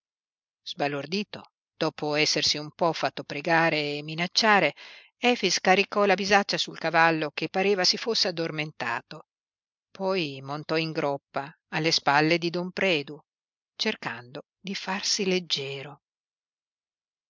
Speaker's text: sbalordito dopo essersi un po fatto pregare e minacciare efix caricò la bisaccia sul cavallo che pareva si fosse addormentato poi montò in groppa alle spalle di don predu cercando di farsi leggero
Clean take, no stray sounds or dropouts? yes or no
yes